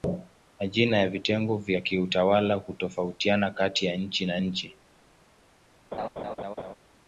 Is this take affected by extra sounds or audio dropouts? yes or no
yes